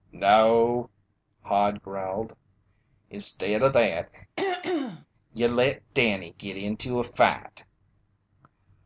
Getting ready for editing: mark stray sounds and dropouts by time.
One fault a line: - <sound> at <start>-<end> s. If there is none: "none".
- throat clearing at 4.4-5.1 s